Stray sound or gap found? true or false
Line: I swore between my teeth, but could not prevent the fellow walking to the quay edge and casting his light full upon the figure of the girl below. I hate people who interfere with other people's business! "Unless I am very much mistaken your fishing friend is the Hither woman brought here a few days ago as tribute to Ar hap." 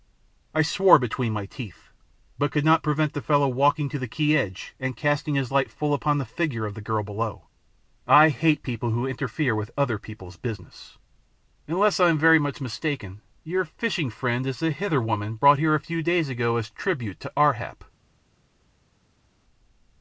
false